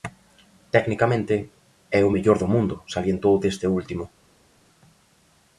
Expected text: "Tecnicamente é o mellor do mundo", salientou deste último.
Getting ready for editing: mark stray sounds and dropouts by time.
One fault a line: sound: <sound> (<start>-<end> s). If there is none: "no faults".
no faults